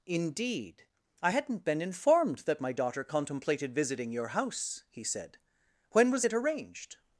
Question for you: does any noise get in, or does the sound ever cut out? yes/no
no